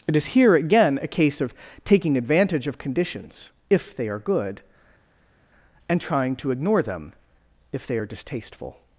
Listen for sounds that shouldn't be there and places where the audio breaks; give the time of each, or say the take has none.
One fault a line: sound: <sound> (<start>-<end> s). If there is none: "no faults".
no faults